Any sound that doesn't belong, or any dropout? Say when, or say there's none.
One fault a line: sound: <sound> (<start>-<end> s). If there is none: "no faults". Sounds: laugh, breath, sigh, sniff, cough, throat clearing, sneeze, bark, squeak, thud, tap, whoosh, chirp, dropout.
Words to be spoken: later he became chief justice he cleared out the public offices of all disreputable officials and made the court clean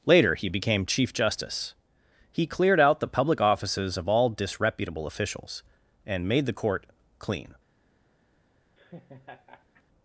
sound: laugh (8.8-9.8 s)